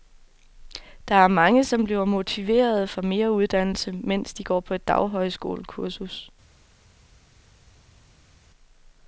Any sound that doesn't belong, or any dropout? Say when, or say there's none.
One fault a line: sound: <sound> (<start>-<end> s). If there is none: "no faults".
no faults